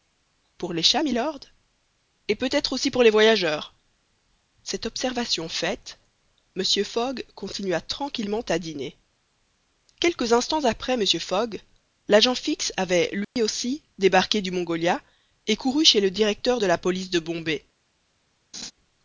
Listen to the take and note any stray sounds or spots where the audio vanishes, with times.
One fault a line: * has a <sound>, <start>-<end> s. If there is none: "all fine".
* has a dropout, 13.2-13.4 s
* has a laugh, 18.5-18.7 s